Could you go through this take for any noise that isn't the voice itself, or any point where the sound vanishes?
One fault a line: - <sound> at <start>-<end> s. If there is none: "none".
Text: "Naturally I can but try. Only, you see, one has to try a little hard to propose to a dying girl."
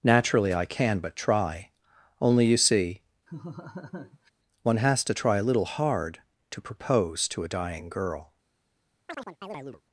- laugh at 3.3-4.3 s
- chirp at 9.1-9.8 s